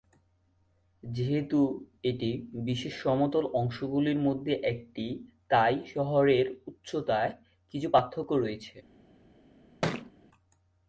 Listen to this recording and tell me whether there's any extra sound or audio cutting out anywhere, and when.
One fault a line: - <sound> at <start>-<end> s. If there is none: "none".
- thud at 9.8-10.1 s